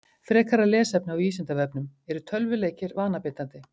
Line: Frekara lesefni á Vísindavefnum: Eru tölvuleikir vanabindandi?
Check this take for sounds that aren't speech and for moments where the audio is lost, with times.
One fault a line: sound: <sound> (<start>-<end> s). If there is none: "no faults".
no faults